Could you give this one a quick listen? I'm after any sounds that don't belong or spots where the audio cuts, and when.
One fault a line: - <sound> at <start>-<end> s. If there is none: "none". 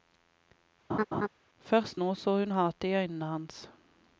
- laugh at 0.9-1.3 s